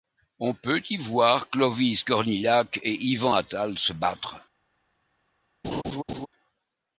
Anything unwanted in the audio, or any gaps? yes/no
yes